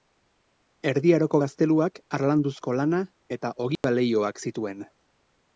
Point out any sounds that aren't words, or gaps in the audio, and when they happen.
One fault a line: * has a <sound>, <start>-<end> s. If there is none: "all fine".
* has a dropout, 3.8-3.8 s